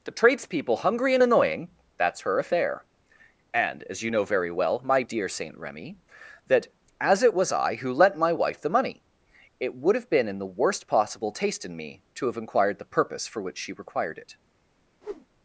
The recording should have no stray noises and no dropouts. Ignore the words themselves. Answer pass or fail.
fail